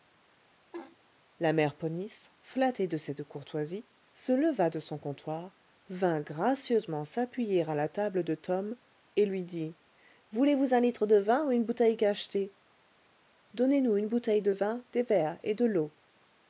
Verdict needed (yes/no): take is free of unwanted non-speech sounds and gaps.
no